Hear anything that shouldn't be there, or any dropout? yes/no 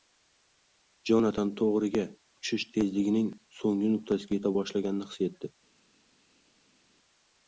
no